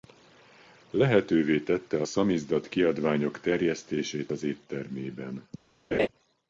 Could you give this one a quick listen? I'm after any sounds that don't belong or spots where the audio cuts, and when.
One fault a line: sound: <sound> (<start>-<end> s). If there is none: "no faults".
sound: laugh (5.9-6.1 s)